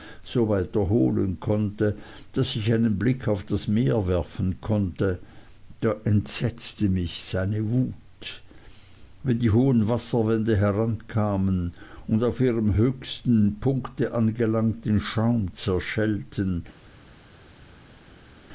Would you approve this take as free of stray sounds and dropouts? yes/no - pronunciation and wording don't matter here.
yes